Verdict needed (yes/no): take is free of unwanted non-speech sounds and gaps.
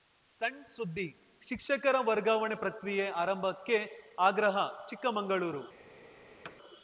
no